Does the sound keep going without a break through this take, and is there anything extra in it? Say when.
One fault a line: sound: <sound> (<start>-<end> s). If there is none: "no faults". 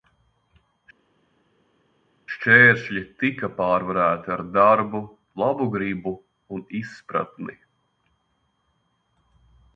no faults